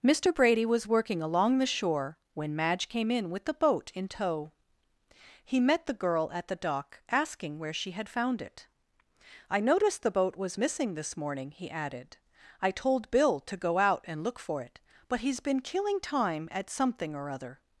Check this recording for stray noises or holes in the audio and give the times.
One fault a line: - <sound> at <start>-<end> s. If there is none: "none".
none